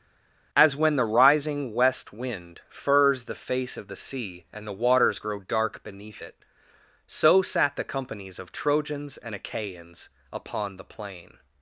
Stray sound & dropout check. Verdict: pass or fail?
pass